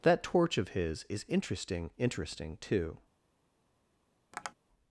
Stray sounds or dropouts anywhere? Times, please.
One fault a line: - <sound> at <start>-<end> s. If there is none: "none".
- tap at 4.3-4.5 s